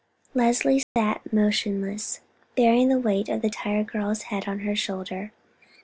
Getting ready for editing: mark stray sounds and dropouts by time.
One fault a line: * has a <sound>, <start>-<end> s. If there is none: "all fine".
* has a dropout, 0.8-1.0 s